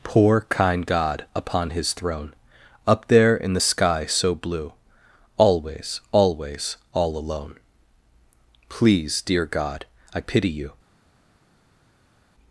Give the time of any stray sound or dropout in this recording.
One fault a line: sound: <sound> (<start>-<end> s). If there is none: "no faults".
no faults